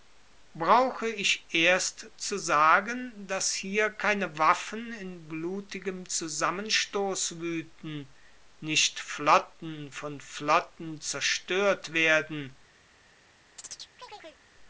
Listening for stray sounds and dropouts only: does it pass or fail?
fail